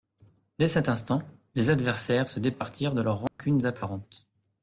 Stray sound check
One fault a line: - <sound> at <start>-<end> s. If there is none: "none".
- dropout at 3.3-3.4 s